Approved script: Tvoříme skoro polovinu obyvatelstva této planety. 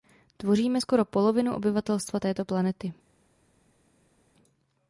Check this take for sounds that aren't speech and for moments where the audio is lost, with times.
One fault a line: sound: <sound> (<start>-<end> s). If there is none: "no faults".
no faults